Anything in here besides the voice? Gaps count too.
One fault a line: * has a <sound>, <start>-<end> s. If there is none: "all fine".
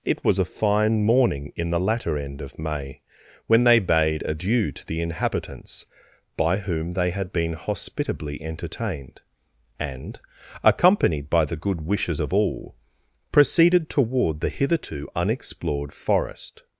all fine